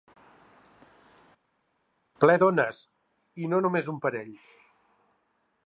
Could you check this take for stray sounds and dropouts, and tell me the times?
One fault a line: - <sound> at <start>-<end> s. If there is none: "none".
none